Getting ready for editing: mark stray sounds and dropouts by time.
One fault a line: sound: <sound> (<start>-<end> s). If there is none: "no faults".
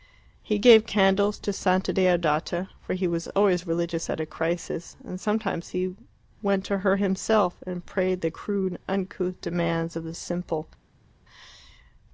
no faults